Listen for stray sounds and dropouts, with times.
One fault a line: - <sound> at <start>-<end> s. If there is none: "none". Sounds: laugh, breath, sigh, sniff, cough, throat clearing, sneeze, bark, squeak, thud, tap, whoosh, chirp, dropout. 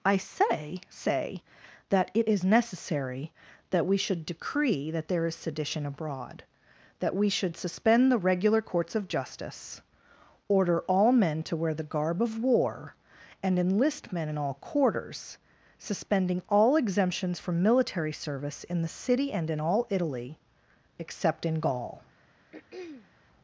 - throat clearing at 22.5-23.1 s